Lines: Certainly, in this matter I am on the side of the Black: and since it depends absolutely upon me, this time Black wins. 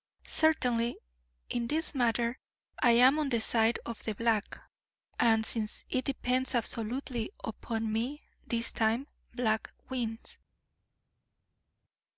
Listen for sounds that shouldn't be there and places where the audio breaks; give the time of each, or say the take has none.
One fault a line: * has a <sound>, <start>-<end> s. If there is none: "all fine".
all fine